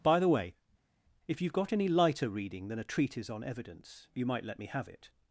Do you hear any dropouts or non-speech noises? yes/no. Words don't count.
no